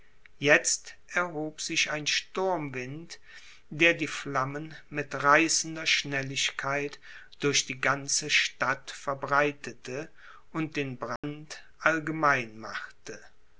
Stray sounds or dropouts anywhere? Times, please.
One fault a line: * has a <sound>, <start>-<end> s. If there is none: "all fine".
* has a dropout, 11.2-11.2 s